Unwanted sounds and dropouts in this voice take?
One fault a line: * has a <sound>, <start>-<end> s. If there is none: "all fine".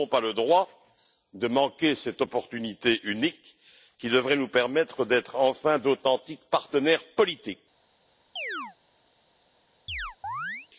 * has a chirp, 8.4-8.8 s
* has a chirp, 9.9-10.7 s